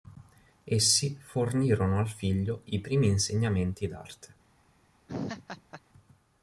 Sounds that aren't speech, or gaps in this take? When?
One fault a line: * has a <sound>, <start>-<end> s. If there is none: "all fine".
* has a laugh, 5.1-5.8 s